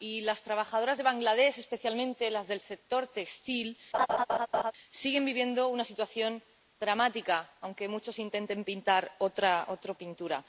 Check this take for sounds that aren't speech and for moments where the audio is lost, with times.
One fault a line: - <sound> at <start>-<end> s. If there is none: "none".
- laugh at 3.9-4.7 s